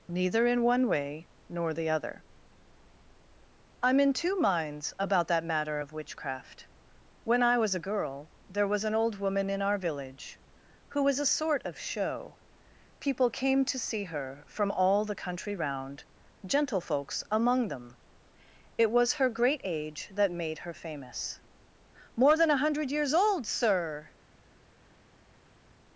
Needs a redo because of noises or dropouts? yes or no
no